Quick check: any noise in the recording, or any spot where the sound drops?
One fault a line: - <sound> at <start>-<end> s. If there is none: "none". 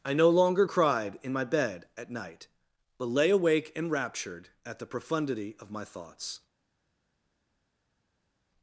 none